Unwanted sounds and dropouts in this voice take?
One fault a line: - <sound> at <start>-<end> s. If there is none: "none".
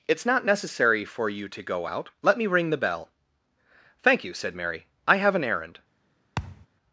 - thud at 6.4-6.7 s